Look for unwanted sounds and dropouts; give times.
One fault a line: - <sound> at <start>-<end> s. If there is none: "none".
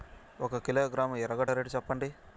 none